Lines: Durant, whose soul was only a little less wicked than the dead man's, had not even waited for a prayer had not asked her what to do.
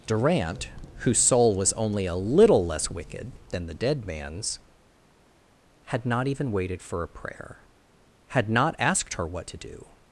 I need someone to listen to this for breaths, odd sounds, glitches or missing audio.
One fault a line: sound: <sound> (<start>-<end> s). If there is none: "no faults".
no faults